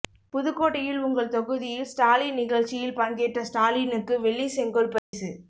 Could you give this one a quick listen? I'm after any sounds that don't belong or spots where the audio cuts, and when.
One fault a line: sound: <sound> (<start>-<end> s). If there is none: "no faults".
sound: dropout (5.0-5.1 s)